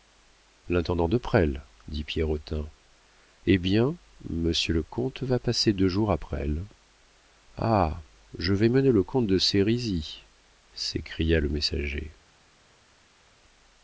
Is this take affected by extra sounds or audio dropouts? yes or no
no